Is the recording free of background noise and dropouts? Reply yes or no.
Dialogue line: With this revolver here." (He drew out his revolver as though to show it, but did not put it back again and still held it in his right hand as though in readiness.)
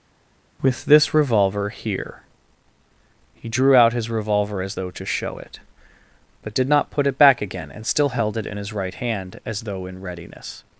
yes